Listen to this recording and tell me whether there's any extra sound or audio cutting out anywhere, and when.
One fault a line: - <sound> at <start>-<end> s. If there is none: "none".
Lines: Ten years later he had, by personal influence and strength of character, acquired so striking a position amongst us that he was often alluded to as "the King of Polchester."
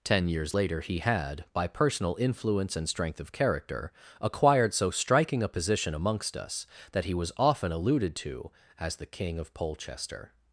none